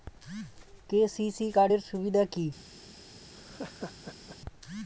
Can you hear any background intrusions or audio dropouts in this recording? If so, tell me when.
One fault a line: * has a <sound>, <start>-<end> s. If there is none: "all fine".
* has a laugh, 3.3-4.4 s